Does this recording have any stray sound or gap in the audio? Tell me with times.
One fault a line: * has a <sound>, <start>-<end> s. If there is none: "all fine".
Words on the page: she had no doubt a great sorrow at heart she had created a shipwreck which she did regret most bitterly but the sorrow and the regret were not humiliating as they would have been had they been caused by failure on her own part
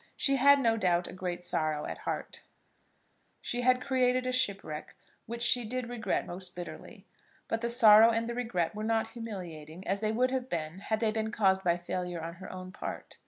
all fine